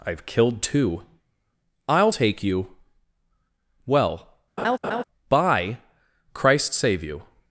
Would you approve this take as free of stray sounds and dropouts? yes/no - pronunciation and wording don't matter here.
no